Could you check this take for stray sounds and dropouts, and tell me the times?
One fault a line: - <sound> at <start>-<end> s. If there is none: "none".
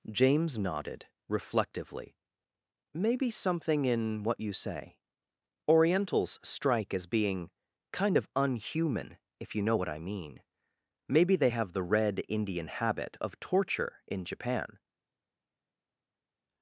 none